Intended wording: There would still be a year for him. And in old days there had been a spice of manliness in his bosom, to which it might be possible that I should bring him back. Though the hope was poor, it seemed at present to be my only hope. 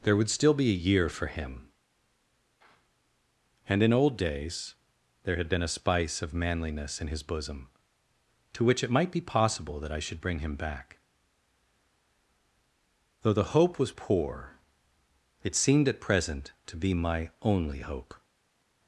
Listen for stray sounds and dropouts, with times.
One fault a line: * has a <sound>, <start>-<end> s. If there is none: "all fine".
all fine